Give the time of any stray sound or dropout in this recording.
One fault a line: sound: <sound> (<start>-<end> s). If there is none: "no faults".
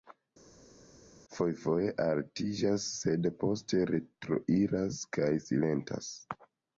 no faults